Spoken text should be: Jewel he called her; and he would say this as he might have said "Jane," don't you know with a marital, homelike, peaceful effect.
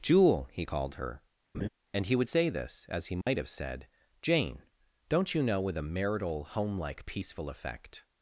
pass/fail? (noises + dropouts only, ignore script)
fail